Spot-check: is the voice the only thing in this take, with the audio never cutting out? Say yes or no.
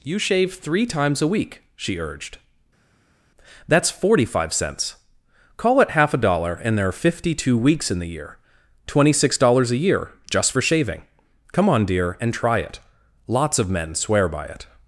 yes